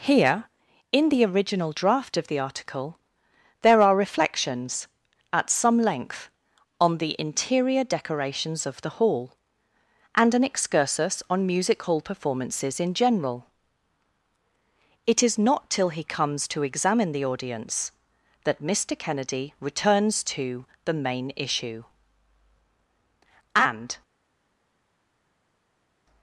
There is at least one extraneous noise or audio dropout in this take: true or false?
false